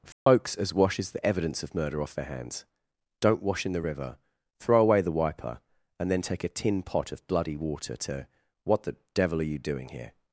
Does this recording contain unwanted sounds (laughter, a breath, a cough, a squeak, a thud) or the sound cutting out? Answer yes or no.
yes